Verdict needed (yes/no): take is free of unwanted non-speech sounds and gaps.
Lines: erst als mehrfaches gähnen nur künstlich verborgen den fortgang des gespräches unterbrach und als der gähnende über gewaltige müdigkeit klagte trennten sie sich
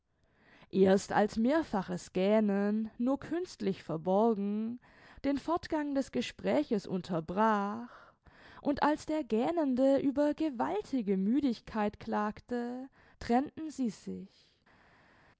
yes